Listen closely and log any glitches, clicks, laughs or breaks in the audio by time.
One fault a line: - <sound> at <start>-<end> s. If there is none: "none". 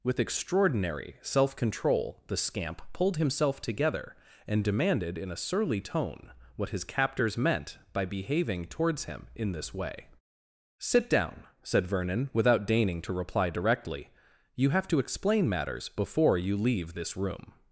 none